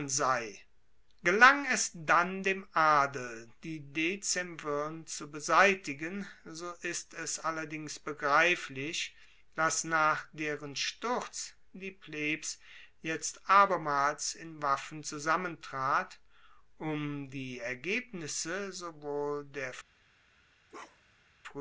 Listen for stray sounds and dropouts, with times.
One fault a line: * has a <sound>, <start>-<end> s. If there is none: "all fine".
* has a bark, 20.7-21.3 s